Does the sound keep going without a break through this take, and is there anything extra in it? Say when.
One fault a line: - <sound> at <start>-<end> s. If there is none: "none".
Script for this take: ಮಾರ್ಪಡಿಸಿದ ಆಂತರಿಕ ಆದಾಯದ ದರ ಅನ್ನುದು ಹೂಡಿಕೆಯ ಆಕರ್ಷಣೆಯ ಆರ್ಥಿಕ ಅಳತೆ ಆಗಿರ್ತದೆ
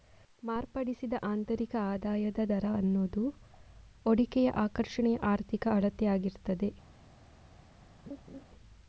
- laugh at 8.1-8.4 s